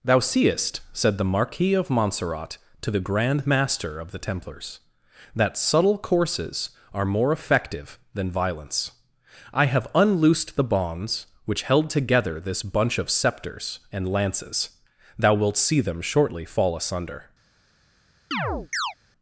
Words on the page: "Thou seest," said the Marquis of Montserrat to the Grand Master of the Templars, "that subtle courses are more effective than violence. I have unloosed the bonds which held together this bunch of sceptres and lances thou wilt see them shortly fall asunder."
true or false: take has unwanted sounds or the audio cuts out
true